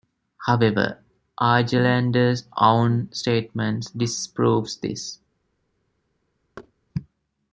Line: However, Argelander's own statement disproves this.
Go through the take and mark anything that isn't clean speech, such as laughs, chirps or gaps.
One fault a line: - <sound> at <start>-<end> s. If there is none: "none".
- thud at 6.6-6.7 s